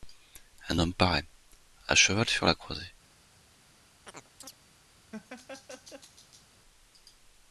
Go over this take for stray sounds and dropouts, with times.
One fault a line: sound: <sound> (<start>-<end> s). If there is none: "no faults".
sound: chirp (4.1-4.6 s)
sound: laugh (5.1-6.5 s)